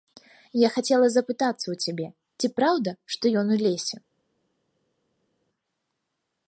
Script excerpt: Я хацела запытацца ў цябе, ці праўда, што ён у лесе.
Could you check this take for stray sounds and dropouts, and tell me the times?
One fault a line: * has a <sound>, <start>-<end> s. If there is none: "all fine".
all fine